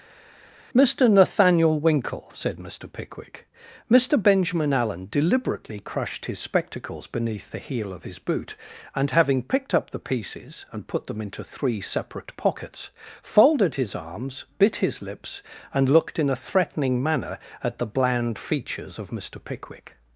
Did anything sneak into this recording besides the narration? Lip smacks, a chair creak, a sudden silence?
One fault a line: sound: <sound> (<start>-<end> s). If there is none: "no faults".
no faults